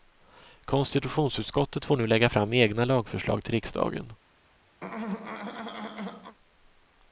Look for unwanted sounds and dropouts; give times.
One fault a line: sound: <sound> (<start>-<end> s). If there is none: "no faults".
sound: throat clearing (4.8-6.4 s)